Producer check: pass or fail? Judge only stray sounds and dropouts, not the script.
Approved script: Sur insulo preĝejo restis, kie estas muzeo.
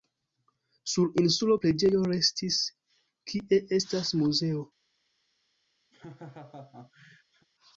fail